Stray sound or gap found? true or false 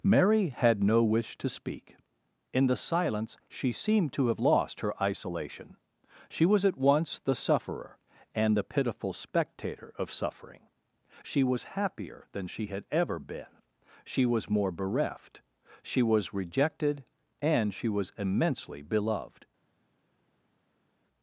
false